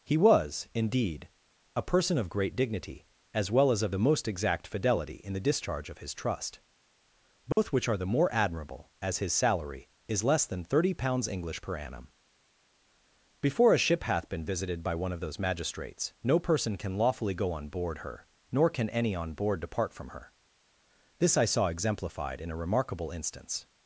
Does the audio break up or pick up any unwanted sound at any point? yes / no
yes